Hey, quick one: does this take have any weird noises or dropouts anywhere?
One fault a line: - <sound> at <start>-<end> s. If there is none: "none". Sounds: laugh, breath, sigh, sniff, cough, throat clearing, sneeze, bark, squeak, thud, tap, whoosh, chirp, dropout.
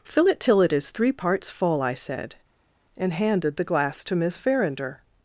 none